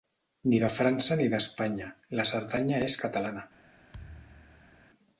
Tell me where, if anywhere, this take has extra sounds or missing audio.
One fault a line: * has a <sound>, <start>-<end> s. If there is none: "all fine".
* has a thud, 3.9-4.9 s